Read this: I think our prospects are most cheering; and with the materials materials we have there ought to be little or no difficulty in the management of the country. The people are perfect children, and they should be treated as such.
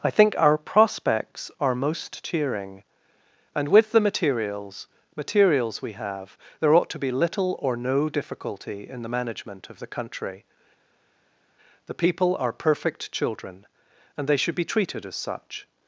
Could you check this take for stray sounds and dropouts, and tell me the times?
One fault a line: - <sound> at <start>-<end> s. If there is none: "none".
none